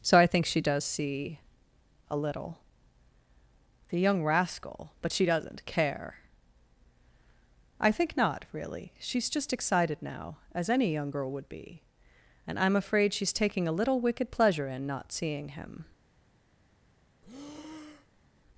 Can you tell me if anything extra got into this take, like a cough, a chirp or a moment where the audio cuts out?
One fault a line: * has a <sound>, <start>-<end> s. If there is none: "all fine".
* has a breath, 17.2-18.2 s